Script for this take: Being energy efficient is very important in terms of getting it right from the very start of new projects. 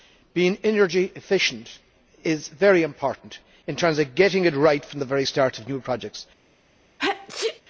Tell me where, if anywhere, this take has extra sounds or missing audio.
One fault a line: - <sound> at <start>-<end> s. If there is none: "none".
- sneeze at 7.0-7.6 s